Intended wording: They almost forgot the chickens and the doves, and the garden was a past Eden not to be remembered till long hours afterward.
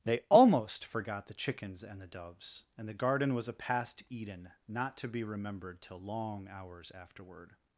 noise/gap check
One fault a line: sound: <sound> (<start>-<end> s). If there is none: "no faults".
no faults